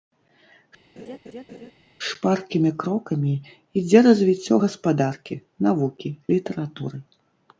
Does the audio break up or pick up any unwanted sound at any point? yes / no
yes